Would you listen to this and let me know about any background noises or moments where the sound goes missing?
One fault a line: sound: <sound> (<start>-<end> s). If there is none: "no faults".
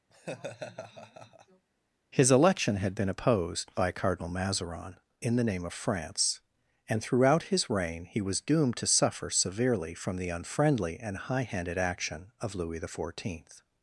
sound: laugh (0.1-1.7 s)